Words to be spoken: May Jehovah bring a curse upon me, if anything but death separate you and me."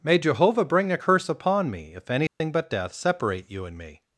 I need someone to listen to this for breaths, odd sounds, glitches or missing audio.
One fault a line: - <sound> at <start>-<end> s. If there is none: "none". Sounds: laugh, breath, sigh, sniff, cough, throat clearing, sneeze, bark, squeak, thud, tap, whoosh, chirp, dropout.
- dropout at 2.3-2.4 s